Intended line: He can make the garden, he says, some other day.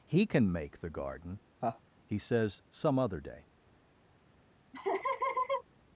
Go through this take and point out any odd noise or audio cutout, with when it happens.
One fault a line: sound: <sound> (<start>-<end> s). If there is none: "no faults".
sound: laugh (1.6-1.8 s)
sound: laugh (4.7-5.6 s)